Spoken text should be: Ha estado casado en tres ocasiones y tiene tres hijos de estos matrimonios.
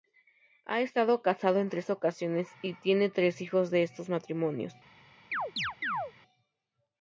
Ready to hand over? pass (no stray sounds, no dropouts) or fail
fail